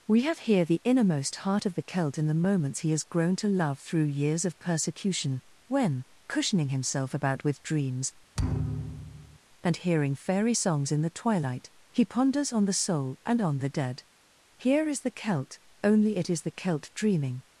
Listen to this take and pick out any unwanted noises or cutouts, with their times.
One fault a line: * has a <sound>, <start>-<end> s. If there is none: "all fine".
* has a thud, 8.4-9.4 s